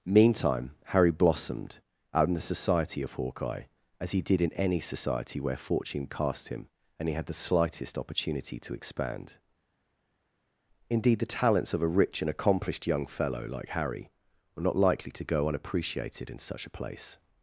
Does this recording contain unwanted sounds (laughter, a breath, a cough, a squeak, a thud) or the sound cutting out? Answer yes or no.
no